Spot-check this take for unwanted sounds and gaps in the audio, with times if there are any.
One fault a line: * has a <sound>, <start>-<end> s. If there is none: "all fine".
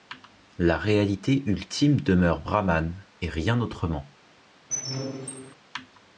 * has a squeak, 4.7-5.5 s